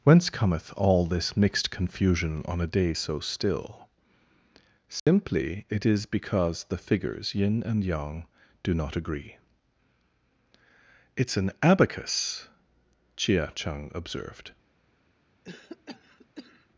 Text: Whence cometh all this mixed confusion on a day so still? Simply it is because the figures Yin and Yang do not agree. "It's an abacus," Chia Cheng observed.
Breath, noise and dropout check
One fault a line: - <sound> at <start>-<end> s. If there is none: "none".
- dropout at 5.0-5.1 s
- cough at 15.4-16.7 s